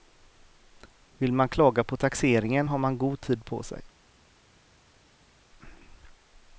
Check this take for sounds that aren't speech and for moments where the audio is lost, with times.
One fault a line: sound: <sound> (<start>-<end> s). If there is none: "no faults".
no faults